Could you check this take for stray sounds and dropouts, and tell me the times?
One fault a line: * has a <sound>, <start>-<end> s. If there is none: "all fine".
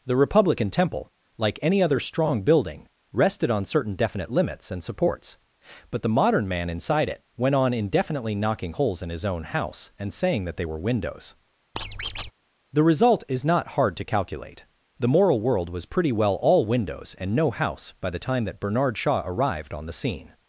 * has a squeak, 11.8-12.3 s